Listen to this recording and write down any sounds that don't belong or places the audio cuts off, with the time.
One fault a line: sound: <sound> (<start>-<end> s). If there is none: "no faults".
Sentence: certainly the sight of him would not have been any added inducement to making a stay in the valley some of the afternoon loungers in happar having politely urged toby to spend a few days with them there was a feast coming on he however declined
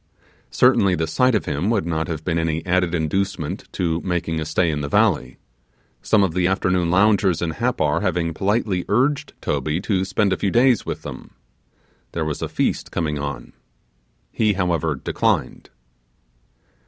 no faults